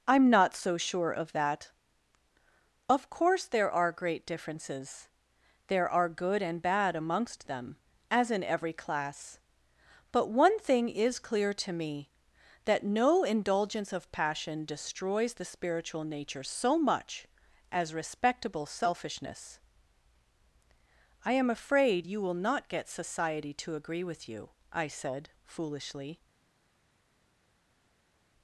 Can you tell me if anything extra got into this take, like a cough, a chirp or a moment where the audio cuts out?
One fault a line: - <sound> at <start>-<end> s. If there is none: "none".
none